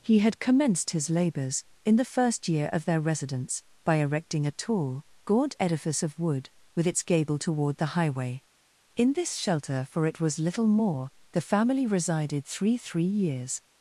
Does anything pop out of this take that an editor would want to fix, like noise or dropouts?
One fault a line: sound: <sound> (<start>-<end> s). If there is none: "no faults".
no faults